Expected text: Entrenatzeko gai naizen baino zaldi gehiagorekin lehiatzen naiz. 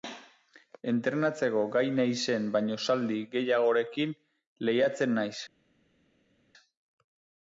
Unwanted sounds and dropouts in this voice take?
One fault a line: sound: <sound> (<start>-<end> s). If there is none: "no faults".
no faults